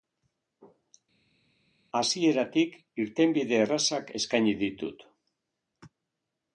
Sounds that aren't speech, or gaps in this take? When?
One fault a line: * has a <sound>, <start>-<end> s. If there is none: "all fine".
all fine